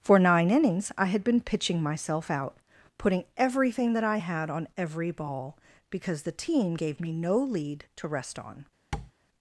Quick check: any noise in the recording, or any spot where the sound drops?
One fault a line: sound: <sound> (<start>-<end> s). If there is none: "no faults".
sound: tap (8.9-9.1 s)